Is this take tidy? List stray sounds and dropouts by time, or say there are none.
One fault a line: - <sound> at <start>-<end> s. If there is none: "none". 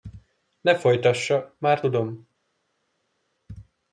none